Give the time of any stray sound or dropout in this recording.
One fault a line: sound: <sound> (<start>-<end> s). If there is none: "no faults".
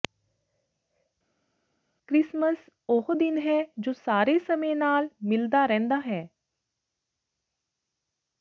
no faults